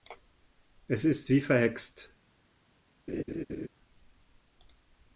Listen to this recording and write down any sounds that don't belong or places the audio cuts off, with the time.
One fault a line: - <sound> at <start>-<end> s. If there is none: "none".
- laugh at 3.1-3.7 s